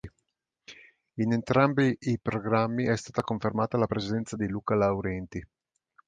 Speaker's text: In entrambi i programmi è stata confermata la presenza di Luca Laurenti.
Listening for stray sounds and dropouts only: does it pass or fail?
pass